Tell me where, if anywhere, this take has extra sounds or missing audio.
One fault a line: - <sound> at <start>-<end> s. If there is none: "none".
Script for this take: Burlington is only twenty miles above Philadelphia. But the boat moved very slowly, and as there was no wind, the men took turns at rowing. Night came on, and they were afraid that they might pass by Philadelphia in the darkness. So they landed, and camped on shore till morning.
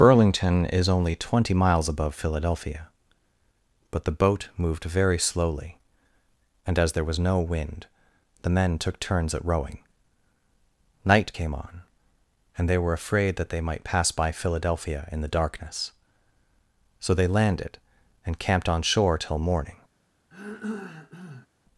- throat clearing at 20.3-21.5 s